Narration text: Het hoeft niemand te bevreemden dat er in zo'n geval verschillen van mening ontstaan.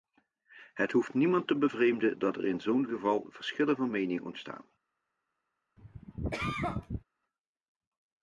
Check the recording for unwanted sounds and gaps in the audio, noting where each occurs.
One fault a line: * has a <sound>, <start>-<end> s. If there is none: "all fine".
* has a cough, 5.8-7.0 s